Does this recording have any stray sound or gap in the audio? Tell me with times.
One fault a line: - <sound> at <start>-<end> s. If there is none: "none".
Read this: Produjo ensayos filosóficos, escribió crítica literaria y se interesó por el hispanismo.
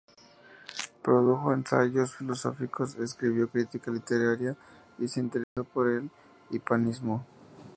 - dropout at 5.4-5.6 s